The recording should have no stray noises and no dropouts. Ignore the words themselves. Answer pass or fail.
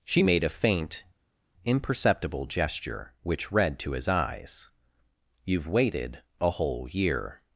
pass